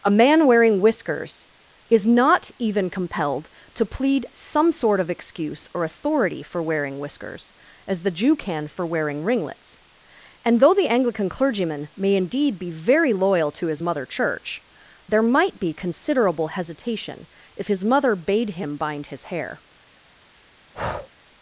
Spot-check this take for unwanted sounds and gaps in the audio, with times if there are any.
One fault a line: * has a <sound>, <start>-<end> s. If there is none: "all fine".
* has a breath, 20.7-21.1 s